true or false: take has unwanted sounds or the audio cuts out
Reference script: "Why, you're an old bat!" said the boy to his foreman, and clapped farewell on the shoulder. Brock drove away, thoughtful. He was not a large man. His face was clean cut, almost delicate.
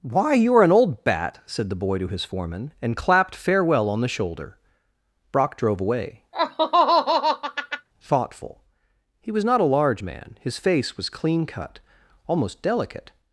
true